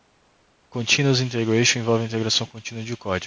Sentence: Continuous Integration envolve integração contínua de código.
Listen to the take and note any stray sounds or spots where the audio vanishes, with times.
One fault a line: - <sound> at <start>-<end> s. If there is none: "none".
none